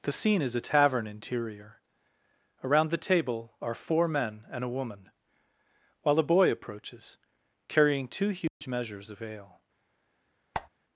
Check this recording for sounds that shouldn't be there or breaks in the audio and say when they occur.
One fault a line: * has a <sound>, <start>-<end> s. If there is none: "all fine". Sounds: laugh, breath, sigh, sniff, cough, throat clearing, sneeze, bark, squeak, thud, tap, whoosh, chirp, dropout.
* has a dropout, 8.5-8.6 s
* has a squeak, 10.5-10.7 s